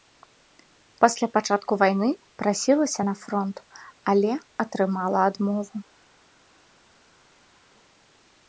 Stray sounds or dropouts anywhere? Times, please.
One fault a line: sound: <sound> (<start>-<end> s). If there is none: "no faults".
no faults